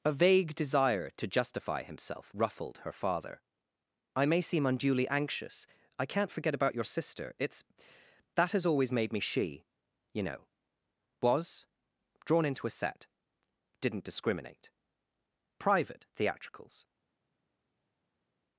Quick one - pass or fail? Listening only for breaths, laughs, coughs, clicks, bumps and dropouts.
pass